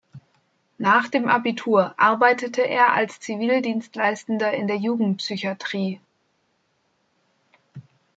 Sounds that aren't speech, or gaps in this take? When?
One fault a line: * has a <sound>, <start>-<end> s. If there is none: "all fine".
all fine